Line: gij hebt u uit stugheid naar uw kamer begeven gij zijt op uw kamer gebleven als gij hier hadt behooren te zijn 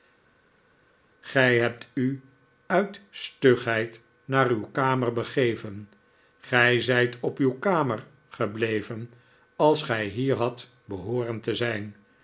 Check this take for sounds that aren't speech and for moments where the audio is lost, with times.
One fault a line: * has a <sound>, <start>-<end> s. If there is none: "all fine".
all fine